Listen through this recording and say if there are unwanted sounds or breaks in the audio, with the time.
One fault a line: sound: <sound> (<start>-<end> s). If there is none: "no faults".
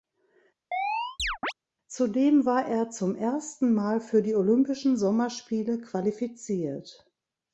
sound: chirp (0.7-1.5 s)